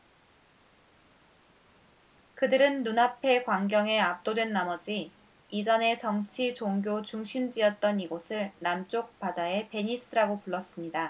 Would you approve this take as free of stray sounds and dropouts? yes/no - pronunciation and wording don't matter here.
yes